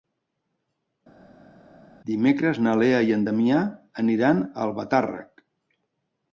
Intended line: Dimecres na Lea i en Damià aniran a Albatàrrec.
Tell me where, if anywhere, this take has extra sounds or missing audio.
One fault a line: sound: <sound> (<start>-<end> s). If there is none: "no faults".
no faults